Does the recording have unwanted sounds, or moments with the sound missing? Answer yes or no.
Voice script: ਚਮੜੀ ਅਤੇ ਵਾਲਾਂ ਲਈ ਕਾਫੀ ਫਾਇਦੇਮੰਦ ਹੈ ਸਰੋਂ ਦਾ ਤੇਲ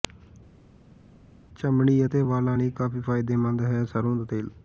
no